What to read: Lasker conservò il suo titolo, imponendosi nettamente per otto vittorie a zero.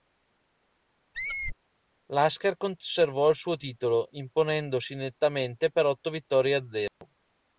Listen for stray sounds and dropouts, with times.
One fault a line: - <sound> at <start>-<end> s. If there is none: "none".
- squeak at 1.1-1.6 s
- dropout at 6.9-7.0 s